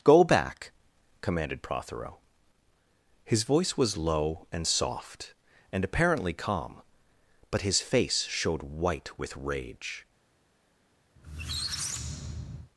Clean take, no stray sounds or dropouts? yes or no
no